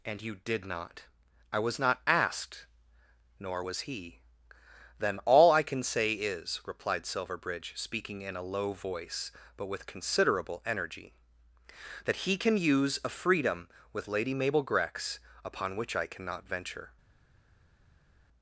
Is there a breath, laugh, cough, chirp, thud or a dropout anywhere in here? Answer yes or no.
no